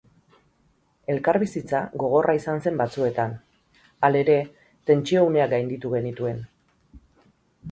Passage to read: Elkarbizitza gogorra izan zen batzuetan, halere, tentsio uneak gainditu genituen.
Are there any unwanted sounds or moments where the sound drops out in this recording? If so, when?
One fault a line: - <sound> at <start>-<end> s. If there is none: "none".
none